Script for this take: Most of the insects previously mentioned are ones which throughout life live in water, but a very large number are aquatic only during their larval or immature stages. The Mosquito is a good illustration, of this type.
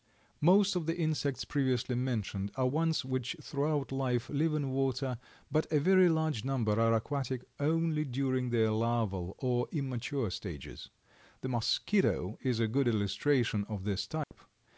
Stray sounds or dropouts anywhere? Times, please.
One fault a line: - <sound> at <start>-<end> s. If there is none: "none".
- dropout at 14.2-14.3 s